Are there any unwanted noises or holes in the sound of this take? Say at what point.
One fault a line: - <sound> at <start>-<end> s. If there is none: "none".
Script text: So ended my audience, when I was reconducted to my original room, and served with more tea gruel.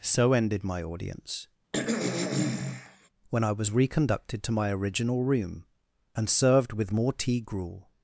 - throat clearing at 1.7-3.1 s